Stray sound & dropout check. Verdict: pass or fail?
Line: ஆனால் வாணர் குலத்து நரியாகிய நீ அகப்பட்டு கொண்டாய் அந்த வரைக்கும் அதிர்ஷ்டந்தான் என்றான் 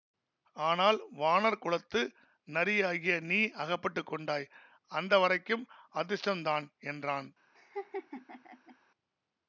fail